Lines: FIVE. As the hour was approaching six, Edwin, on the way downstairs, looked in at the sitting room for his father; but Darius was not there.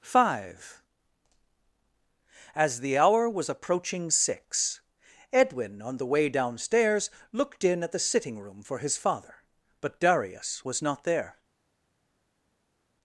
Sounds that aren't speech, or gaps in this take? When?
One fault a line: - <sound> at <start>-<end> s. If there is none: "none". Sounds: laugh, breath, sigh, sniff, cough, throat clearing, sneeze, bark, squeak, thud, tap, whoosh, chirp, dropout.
none